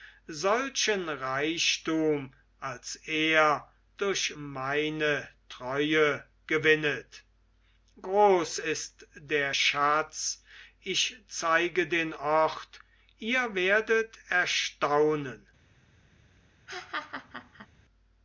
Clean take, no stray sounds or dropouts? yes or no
no